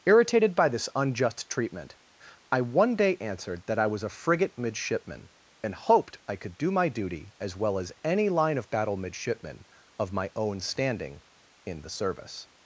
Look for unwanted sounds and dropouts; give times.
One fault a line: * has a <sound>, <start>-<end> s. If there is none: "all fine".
all fine